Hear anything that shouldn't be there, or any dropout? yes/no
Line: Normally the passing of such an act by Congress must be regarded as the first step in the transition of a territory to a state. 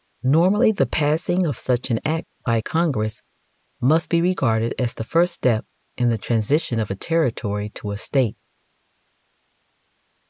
no